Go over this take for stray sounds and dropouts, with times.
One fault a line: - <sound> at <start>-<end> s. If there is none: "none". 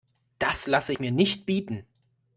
none